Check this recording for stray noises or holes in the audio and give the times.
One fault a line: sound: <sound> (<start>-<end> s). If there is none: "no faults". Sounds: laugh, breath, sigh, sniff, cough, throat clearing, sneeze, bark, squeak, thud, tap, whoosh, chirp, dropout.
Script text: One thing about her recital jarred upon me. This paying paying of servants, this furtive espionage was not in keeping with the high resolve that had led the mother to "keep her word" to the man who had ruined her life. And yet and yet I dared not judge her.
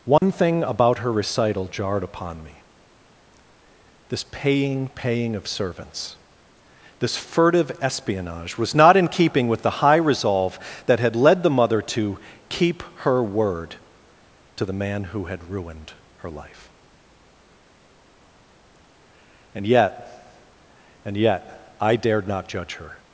sound: dropout (0.2-0.2 s)